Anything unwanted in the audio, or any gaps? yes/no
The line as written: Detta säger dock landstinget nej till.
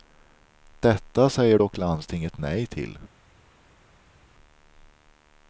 no